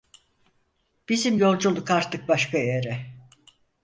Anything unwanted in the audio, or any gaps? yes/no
no